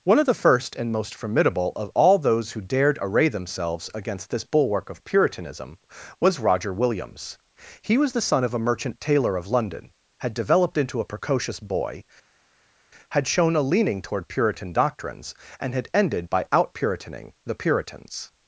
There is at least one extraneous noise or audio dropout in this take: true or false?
false